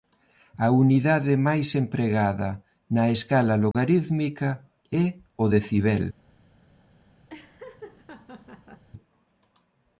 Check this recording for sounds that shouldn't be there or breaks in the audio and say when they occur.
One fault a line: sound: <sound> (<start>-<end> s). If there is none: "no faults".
sound: dropout (3.7-3.7 s)
sound: laugh (7.3-8.8 s)